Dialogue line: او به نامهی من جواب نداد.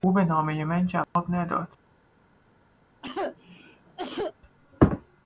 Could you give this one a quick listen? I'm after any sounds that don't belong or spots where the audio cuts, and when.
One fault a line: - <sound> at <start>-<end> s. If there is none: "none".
- dropout at 1.0-1.2 s
- cough at 3.0-4.3 s